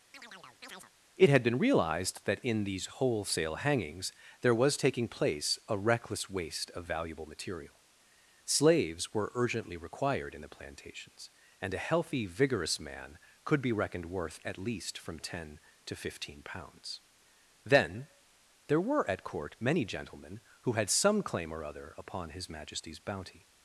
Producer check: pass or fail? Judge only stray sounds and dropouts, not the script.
fail